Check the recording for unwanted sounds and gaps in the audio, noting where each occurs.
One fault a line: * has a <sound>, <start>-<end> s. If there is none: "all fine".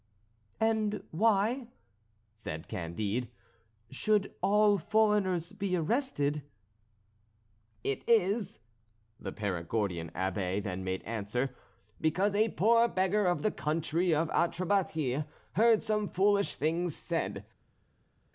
all fine